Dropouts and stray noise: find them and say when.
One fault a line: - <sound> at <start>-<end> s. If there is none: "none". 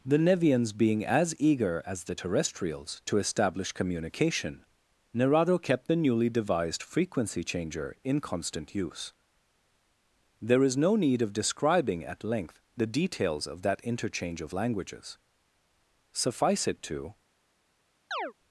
- chirp at 18.1-18.3 s